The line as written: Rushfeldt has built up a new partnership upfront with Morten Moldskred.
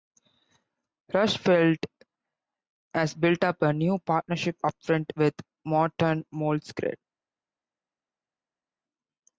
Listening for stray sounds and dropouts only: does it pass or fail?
pass